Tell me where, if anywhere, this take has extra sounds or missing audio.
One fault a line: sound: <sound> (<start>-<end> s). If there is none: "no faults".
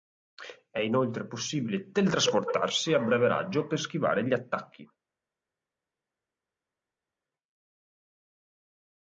no faults